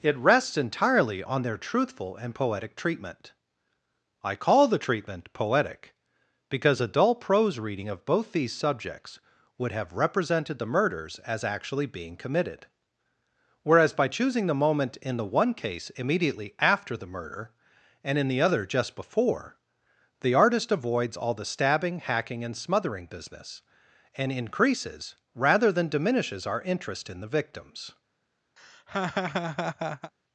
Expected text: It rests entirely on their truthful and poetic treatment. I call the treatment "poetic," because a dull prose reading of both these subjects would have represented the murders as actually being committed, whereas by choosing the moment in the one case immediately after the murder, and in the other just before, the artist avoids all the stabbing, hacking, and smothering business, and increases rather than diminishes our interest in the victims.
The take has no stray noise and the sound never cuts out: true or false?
false